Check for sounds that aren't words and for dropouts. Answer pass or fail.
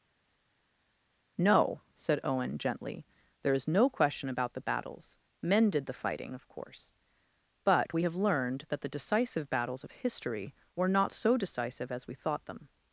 pass